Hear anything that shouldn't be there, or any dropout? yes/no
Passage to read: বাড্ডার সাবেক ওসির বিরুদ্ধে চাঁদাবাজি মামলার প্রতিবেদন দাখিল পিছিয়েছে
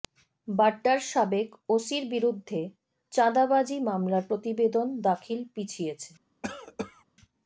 yes